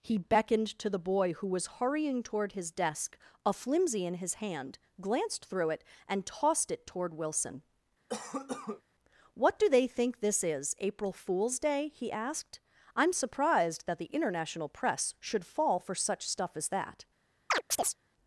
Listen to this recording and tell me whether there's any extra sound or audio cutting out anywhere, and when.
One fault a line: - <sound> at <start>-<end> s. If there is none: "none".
- cough at 8.1-8.8 s
- chirp at 17.5-18.0 s